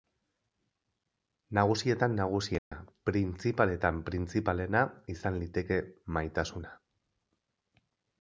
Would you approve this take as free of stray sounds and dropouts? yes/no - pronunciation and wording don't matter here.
no